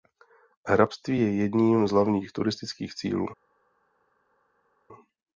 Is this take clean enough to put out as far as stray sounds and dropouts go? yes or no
yes